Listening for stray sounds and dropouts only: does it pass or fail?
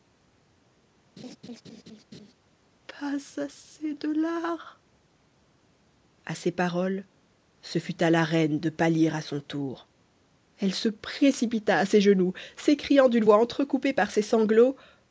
fail